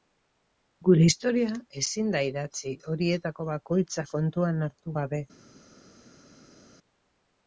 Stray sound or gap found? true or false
false